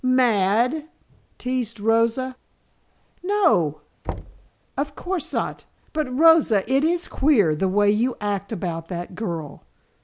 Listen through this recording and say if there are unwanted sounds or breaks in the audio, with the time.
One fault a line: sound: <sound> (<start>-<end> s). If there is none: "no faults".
sound: thud (4.0-4.5 s)